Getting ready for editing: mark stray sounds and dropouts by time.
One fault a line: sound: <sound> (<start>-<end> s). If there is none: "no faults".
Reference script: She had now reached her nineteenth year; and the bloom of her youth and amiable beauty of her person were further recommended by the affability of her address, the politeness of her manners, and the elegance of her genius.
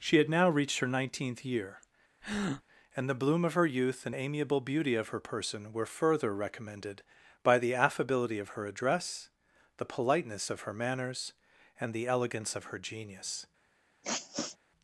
sound: breath (2.2-2.6 s)
sound: sniff (14.0-14.6 s)